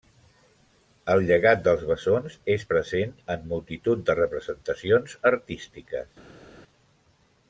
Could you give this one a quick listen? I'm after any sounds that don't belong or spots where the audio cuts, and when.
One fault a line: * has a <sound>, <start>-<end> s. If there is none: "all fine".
all fine